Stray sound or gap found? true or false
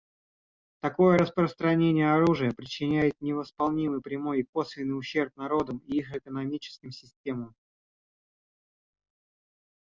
false